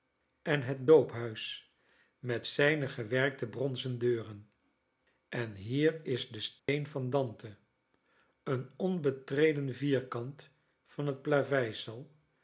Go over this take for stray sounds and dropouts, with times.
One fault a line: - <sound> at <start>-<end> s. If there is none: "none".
- dropout at 6.6-6.7 s